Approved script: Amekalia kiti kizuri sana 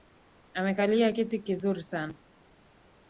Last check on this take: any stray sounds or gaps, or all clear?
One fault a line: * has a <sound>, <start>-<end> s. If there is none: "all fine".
all fine